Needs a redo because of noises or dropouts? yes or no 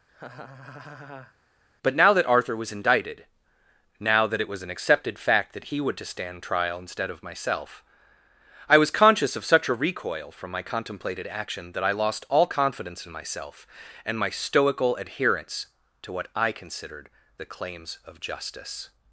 yes